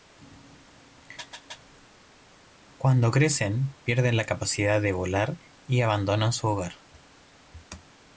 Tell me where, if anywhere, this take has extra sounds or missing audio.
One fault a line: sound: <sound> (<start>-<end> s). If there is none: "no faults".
no faults